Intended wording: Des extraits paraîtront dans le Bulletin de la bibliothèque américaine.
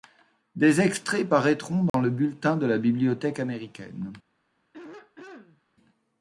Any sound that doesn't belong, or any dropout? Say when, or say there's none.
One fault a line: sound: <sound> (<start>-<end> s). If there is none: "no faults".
sound: dropout (1.9-1.9 s)
sound: throat clearing (4.7-5.6 s)